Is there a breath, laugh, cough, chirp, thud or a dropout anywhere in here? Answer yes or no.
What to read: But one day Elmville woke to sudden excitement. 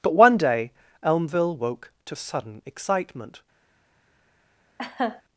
yes